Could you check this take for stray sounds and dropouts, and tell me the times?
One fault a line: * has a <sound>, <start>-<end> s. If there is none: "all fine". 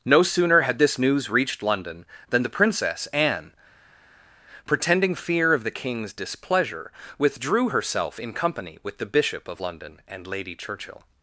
all fine